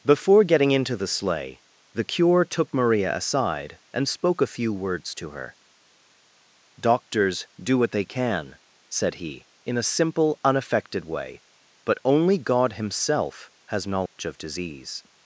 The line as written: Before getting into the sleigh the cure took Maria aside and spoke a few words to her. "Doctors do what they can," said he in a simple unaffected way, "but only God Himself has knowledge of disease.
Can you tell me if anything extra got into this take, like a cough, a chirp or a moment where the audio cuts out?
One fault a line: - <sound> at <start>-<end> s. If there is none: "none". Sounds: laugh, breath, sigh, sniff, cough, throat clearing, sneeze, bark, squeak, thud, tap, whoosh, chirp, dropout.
- dropout at 14.1-14.2 s